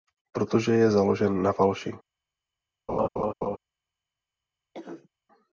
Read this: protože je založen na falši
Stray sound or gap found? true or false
true